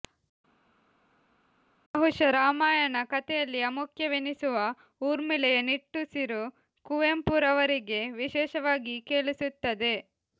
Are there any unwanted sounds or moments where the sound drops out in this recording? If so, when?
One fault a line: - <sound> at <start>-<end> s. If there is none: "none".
none